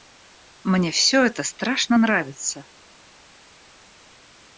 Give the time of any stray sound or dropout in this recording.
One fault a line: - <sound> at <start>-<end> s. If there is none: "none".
none